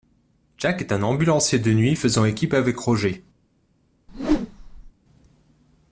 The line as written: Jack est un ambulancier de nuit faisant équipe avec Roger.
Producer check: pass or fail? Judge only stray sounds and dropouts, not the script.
fail